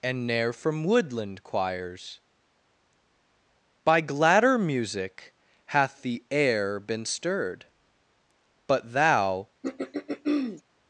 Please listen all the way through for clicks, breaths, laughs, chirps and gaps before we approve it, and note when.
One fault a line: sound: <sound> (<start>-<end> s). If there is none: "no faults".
sound: throat clearing (9.6-10.6 s)